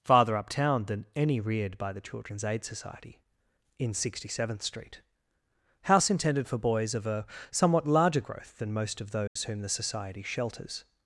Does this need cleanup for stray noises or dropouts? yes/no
yes